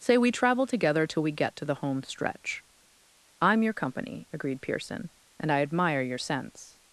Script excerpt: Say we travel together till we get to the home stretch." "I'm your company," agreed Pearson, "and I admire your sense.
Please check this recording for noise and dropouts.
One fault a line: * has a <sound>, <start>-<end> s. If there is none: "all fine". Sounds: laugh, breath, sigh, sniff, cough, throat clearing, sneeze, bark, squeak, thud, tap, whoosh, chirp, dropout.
all fine